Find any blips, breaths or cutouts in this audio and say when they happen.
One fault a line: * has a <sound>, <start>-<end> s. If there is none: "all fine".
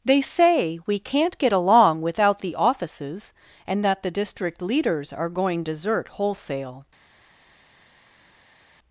all fine